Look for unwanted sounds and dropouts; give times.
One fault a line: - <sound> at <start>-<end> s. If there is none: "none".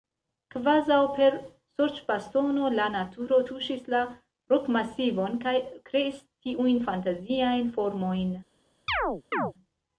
- chirp at 8.9-9.5 s